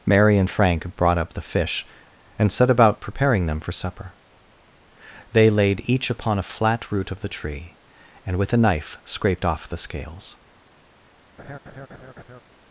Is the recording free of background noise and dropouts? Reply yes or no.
no